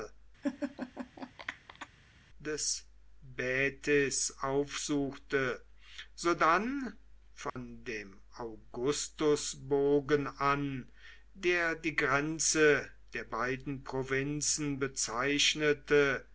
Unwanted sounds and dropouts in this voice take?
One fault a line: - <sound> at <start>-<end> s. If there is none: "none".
- laugh at 0.4-1.9 s
- dropout at 7.5-7.6 s